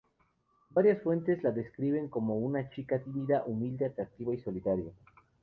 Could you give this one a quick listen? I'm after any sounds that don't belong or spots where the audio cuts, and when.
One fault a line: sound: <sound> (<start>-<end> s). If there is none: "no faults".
no faults